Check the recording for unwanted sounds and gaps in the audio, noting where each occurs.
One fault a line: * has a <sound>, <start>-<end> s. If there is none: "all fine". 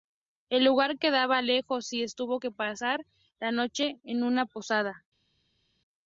all fine